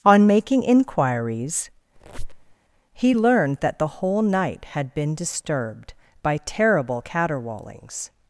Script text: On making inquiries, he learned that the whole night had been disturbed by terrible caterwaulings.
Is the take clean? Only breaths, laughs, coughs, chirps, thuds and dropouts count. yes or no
no